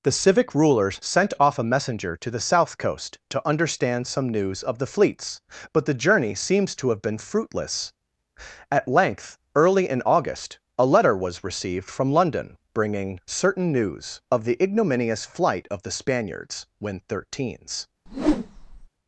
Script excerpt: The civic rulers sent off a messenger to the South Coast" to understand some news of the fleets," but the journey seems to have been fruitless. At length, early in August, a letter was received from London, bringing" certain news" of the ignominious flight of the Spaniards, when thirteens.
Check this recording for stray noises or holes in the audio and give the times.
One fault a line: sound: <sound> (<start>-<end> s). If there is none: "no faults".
sound: whoosh (18.1-18.9 s)